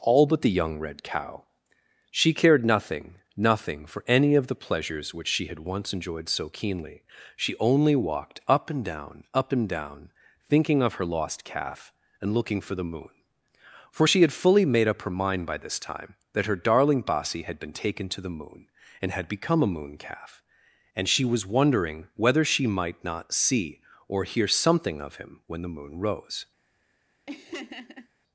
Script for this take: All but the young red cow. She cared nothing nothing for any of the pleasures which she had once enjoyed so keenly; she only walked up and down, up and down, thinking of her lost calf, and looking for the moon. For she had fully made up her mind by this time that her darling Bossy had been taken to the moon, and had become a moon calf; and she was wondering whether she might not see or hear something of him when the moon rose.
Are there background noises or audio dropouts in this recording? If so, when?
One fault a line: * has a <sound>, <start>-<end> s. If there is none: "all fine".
* has a laugh, 27.3-28.1 s